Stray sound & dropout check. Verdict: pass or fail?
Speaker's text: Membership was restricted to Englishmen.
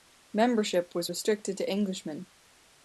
pass